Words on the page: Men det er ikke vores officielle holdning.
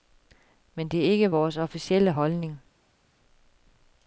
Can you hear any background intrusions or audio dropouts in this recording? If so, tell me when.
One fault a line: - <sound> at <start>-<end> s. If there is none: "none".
none